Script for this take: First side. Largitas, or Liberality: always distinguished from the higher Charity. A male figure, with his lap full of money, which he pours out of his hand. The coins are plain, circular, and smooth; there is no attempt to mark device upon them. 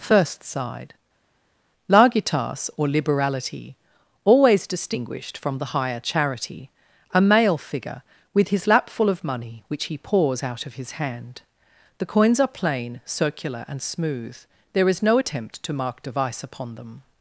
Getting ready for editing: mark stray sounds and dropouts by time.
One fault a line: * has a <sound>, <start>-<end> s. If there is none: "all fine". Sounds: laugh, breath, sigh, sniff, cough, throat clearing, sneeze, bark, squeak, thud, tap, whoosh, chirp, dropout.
all fine